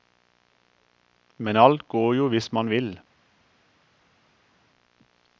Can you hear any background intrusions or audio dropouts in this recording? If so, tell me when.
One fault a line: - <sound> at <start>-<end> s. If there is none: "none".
none